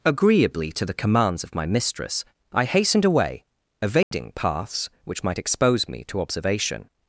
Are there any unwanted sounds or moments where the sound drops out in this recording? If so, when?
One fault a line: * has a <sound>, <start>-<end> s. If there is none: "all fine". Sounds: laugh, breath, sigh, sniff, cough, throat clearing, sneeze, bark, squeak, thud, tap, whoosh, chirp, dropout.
* has a dropout, 4.0-4.1 s